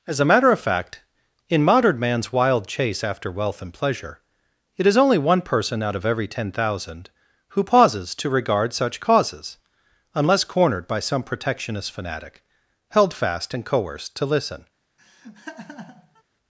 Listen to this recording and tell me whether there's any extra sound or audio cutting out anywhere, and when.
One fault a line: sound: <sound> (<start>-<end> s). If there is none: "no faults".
sound: laugh (15.0-16.2 s)